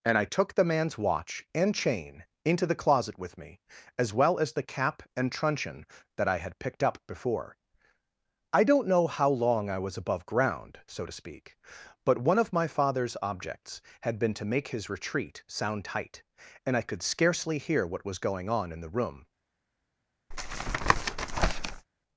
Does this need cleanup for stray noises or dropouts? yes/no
yes